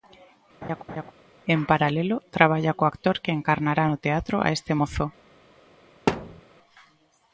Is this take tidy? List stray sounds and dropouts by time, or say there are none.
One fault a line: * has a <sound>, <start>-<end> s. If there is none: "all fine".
* has a laugh, 0.6-1.1 s
* has a thud, 6.1-6.4 s